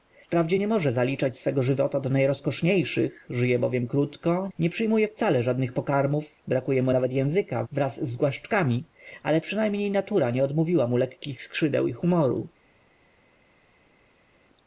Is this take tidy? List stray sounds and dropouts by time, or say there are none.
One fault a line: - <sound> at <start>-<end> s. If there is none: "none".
none